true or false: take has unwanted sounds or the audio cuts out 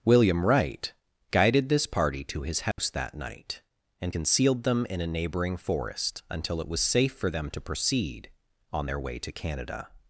true